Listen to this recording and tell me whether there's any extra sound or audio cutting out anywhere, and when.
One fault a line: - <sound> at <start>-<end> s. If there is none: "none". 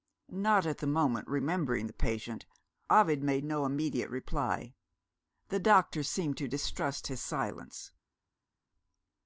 none